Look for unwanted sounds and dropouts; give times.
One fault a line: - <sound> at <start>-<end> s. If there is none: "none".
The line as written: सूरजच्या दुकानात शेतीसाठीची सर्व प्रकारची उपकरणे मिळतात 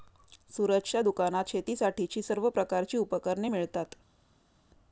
none